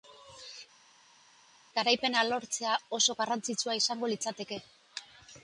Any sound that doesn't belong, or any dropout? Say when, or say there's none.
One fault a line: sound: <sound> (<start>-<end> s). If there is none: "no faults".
no faults